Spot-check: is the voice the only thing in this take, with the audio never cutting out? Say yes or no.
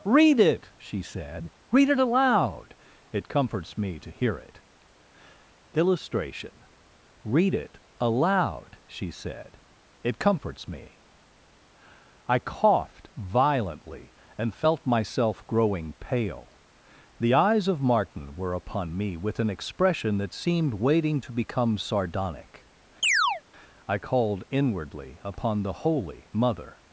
no